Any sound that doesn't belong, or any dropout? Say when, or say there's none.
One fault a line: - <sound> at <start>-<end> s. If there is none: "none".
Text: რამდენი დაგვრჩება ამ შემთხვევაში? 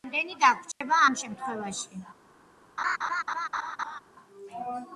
- dropout at 0.7-0.8 s
- laugh at 2.8-4.0 s